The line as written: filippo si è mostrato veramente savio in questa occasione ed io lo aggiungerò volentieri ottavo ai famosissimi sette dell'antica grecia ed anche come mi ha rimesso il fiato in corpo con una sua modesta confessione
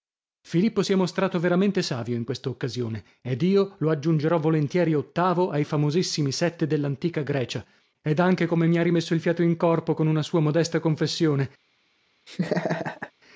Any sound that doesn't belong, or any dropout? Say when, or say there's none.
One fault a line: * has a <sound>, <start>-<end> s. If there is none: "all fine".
* has a laugh, 12.3-13.1 s